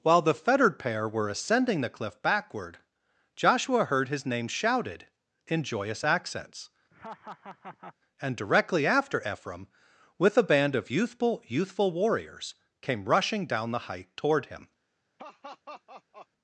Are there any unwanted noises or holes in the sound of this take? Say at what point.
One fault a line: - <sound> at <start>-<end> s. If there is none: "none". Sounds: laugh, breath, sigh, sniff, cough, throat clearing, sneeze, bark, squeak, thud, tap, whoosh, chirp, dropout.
- laugh at 6.9-8.0 s
- laugh at 15.2-16.3 s